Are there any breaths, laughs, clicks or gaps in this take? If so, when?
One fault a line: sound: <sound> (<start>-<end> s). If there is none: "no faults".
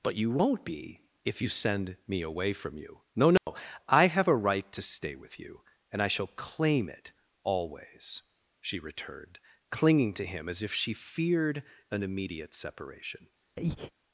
sound: dropout (3.4-3.5 s)
sound: breath (13.6-13.9 s)